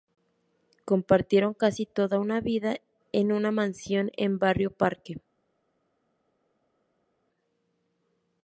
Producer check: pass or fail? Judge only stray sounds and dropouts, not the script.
pass